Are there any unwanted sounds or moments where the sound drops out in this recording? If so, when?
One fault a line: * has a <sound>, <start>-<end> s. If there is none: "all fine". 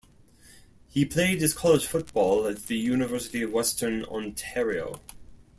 all fine